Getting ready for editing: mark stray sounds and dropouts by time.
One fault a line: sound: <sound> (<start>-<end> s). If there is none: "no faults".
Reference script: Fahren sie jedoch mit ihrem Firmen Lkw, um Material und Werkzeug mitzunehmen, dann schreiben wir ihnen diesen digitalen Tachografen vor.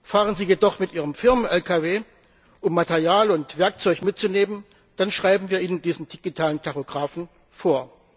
no faults